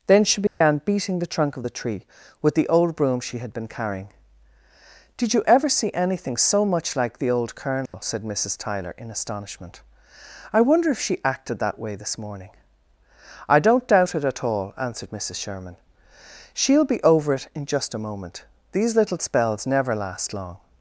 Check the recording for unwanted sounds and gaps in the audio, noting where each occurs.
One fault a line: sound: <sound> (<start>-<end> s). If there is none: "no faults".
sound: dropout (0.5-0.6 s)
sound: dropout (7.9-7.9 s)